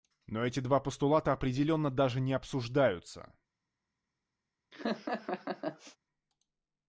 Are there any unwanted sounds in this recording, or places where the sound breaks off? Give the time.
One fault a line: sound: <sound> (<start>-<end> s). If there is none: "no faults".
sound: laugh (4.7-6.0 s)